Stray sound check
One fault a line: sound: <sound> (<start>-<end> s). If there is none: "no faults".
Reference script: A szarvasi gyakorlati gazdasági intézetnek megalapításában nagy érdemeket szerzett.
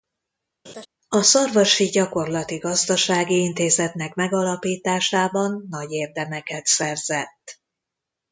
sound: laugh (0.7-0.9 s)